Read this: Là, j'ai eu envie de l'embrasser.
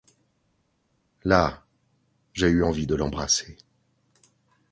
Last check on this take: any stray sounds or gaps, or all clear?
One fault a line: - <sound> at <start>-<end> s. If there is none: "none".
none